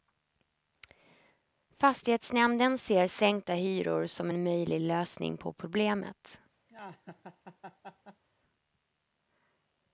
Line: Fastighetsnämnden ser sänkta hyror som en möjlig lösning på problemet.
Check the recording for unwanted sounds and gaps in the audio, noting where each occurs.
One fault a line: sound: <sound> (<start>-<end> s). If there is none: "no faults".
sound: laugh (6.7-8.2 s)